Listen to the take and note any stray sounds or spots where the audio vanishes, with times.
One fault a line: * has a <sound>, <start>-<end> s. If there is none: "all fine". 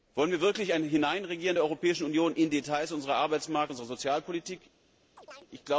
* has a chirp, 5.2-5.5 s